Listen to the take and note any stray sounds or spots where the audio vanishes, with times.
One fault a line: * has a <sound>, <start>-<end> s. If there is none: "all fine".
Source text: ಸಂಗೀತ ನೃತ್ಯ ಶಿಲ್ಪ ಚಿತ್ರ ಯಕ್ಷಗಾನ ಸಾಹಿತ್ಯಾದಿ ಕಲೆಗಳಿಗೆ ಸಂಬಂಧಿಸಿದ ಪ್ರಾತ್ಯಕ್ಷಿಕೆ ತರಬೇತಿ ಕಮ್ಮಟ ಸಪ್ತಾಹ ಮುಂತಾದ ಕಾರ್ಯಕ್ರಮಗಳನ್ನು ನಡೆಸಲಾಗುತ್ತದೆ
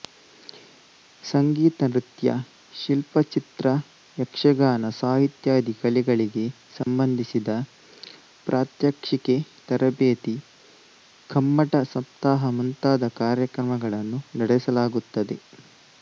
* has a dropout, 6.8-6.9 s